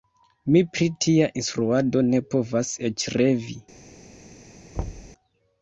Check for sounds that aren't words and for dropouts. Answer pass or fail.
fail